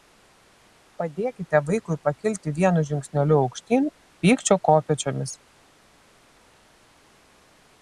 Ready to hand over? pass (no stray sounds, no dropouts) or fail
pass